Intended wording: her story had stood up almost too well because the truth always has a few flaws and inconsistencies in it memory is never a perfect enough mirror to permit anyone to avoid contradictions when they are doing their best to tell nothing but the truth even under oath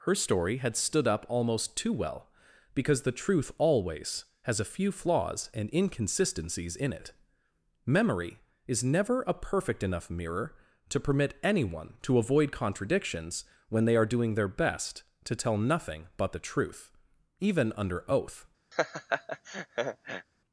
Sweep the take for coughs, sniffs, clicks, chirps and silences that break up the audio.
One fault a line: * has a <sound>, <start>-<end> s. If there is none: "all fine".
* has a laugh, 18.7-20.3 s